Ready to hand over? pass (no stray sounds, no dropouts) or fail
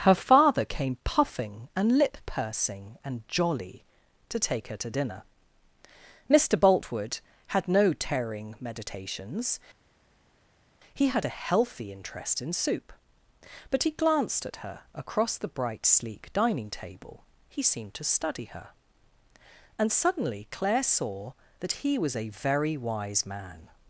pass